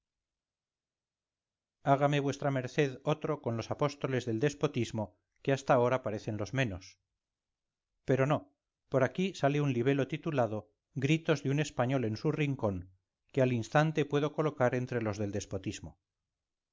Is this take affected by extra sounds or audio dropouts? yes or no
no